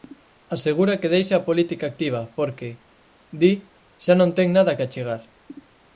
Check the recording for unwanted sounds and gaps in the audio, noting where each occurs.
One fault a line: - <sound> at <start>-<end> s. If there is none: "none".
none